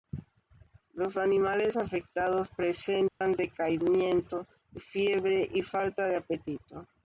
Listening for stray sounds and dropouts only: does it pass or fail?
fail